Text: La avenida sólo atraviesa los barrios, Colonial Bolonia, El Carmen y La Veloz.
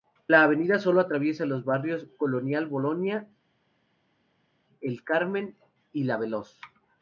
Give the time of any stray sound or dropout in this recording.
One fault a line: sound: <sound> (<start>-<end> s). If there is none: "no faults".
no faults